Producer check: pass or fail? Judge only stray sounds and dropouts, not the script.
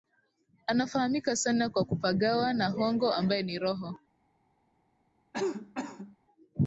fail